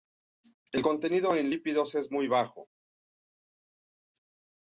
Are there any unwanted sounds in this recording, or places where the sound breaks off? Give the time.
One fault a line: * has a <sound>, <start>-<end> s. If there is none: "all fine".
all fine